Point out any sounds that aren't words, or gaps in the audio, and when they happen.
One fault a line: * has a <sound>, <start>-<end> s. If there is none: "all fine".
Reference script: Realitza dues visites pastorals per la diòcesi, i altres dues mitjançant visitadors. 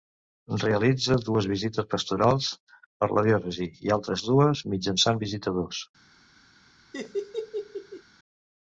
* has a laugh, 6.9-8.0 s